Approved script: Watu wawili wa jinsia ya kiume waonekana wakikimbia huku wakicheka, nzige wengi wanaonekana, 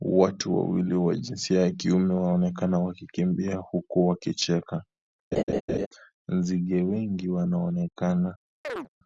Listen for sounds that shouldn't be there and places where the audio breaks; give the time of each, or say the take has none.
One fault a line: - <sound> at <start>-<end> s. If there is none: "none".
- laugh at 5.3-5.9 s
- chirp at 8.6-8.9 s